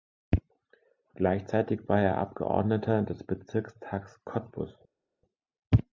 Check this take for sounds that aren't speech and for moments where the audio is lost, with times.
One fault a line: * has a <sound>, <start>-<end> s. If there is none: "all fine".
all fine